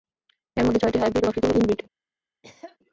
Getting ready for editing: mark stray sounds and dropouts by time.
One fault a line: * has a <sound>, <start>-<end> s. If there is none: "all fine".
* has a cough, 2.4-2.8 s